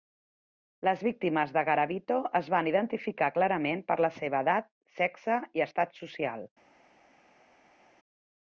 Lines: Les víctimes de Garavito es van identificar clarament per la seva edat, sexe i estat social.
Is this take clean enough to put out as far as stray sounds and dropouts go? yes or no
yes